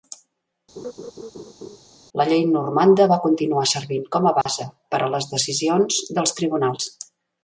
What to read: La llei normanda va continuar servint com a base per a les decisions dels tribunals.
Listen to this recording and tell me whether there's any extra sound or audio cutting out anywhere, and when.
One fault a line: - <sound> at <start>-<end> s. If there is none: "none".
- laugh at 0.8-1.8 s
- dropout at 4.4-4.5 s